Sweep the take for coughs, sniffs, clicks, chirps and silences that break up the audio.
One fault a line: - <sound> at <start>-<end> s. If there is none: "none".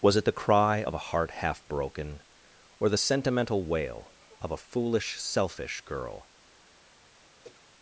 - throat clearing at 7.4-7.7 s